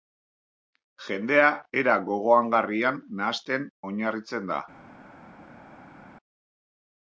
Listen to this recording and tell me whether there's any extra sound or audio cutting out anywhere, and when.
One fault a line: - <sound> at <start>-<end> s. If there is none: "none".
none